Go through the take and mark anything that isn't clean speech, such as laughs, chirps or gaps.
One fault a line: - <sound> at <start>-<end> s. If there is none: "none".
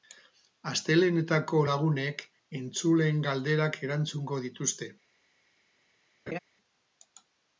- laugh at 6.3-6.4 s